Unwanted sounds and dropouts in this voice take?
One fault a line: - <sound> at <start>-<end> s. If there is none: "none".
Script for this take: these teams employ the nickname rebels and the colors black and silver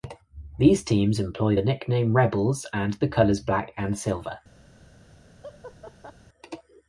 - laugh at 5.4-6.1 s